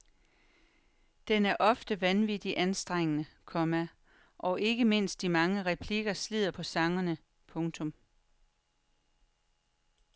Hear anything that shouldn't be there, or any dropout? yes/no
no